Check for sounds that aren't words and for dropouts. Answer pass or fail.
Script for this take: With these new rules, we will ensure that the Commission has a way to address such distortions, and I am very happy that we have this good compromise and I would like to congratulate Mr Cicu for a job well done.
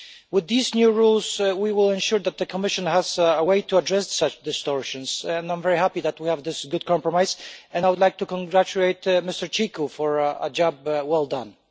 pass